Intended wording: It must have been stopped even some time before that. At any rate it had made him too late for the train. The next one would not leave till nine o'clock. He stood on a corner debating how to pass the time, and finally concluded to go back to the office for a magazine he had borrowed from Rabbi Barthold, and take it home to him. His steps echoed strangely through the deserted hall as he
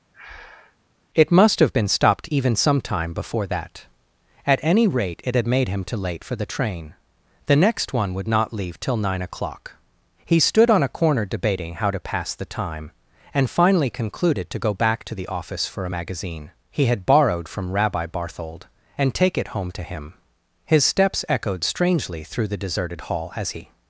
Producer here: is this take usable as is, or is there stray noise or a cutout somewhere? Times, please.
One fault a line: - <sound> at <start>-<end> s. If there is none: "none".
- breath at 0.1-0.8 s